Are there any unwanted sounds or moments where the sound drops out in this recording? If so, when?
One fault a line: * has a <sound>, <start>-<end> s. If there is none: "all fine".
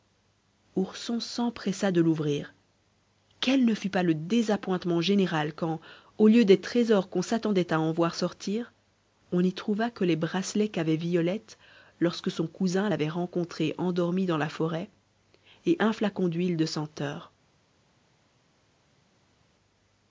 all fine